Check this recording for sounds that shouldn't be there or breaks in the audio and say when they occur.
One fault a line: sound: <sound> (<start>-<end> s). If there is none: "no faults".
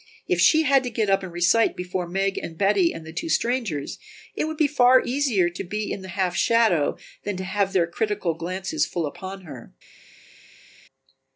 no faults